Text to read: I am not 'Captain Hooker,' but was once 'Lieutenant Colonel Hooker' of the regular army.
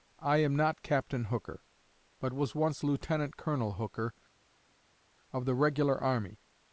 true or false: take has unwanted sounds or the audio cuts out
false